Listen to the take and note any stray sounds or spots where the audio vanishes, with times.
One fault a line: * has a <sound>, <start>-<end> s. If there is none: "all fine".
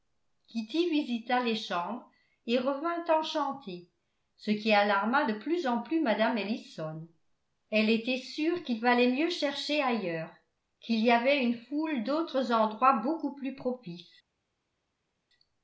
all fine